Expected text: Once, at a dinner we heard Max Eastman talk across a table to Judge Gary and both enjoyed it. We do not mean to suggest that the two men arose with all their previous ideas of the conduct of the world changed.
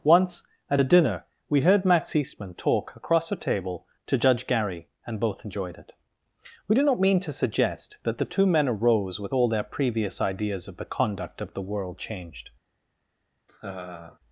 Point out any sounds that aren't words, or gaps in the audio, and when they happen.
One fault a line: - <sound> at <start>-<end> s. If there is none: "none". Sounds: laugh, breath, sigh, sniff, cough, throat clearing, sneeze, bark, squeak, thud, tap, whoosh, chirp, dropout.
- laugh at 13.5-14.2 s